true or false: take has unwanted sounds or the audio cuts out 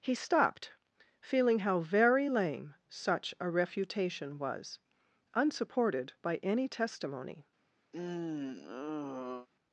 true